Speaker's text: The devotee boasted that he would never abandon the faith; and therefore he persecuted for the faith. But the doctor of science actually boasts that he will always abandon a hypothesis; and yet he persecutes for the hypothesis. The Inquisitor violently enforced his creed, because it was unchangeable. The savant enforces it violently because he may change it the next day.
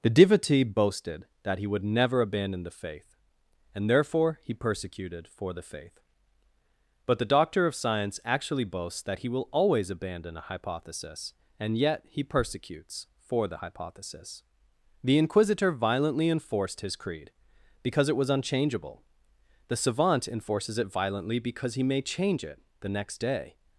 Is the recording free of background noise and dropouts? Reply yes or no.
yes